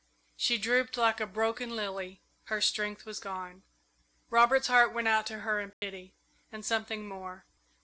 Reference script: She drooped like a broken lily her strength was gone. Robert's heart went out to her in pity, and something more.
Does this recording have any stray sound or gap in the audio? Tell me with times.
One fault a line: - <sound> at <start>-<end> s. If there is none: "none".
- dropout at 5.7-5.8 s